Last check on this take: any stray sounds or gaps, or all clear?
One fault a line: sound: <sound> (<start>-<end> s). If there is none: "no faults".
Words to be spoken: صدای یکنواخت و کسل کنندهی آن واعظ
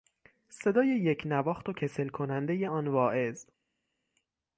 no faults